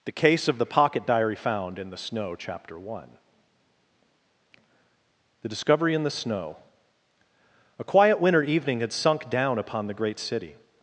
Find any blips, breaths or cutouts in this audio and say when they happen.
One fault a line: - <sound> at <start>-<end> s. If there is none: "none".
none